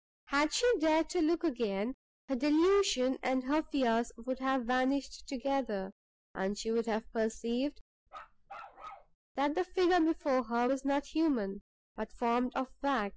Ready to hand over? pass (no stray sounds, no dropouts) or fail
fail